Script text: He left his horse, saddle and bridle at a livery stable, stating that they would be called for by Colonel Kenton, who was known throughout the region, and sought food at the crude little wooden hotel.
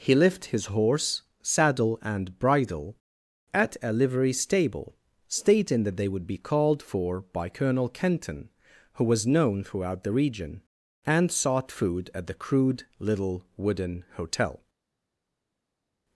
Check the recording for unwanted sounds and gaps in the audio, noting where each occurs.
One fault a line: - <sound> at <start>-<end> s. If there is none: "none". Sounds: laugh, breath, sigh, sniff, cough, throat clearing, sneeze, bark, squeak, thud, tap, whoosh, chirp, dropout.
none